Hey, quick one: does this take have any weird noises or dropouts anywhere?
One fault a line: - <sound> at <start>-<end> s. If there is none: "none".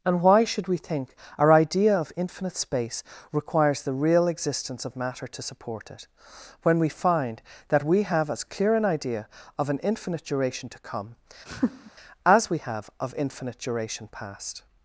- laugh at 11.5-11.9 s